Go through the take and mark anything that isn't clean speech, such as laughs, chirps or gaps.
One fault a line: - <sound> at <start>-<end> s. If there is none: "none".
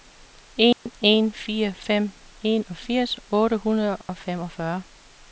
- dropout at 0.7-0.9 s
- dropout at 4.0-4.1 s